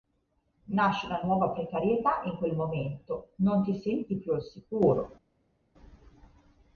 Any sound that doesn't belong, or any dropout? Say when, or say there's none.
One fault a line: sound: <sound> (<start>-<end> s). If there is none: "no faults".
no faults